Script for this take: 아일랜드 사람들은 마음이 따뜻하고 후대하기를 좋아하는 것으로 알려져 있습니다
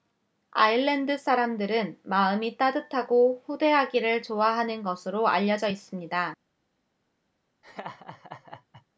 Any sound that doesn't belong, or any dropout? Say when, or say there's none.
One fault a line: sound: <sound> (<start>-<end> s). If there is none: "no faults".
sound: laugh (7.6-8.9 s)